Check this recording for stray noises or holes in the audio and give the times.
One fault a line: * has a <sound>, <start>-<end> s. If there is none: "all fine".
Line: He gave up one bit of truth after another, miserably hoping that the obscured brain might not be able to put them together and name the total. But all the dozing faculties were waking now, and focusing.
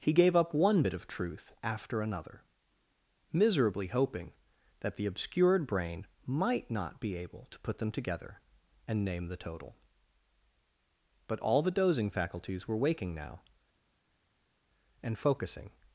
all fine